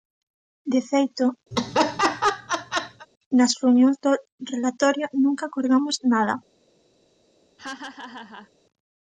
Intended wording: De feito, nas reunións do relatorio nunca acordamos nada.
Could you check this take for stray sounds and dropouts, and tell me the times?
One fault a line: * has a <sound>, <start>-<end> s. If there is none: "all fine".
* has a laugh, 1.5-3.1 s
* has a laugh, 7.6-8.5 s